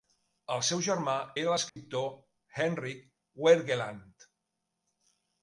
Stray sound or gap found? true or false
true